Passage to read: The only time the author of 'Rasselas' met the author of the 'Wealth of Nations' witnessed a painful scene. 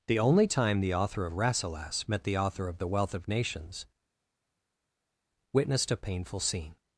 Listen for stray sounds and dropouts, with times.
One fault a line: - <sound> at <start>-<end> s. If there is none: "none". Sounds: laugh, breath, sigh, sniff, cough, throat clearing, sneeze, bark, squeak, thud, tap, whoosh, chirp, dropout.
none